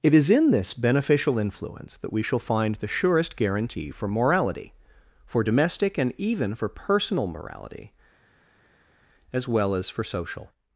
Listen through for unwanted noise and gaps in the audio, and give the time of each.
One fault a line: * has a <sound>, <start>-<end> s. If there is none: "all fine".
all fine